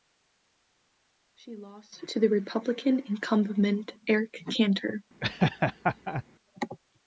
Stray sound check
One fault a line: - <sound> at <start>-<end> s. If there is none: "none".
- laugh at 5.2-6.2 s